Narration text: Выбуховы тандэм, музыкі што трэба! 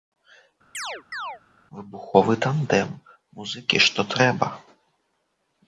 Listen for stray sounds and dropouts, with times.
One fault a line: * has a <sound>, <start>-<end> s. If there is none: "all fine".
* has a chirp, 0.7-1.4 s